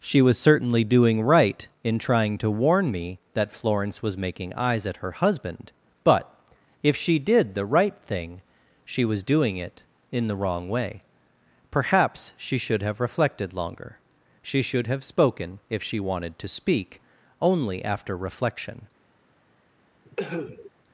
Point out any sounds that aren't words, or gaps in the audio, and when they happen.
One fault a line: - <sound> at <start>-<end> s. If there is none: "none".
- cough at 20.0-20.7 s